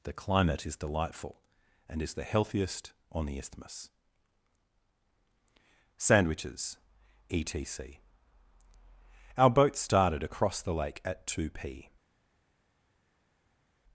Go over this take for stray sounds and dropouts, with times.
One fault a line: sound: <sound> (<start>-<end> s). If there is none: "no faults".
no faults